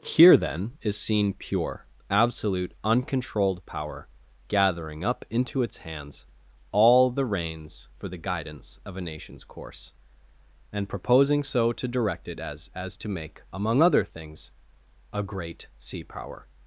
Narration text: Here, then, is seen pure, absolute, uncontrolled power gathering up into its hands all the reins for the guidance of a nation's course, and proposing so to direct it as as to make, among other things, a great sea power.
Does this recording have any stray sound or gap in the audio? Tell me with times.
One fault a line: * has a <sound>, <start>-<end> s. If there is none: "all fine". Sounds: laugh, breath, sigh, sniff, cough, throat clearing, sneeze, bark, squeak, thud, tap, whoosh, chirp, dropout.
all fine